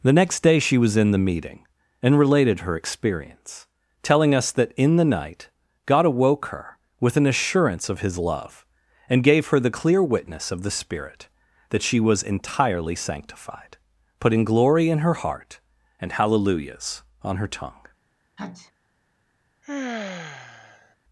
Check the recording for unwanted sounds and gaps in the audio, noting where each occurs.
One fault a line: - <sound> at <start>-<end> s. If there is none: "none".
- sneeze at 18.4-18.7 s
- sigh at 19.6-21.0 s